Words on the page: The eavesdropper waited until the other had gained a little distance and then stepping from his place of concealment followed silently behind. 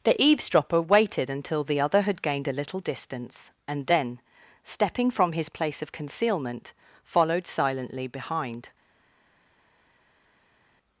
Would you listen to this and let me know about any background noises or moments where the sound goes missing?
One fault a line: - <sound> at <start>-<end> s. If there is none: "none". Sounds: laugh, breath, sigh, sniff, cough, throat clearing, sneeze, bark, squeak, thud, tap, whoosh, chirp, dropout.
none